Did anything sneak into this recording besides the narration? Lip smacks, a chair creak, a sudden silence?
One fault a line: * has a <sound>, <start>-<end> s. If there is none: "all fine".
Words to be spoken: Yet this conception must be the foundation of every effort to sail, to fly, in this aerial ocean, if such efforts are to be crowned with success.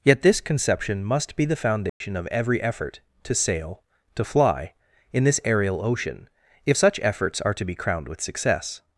* has a dropout, 1.9-2.0 s